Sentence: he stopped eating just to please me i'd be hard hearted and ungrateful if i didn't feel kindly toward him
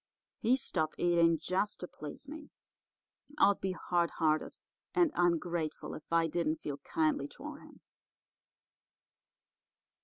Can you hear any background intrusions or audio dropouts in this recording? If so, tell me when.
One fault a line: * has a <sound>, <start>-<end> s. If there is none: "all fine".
all fine